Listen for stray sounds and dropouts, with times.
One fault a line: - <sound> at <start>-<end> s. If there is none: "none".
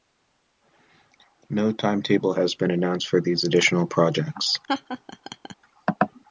- laugh at 4.7-5.5 s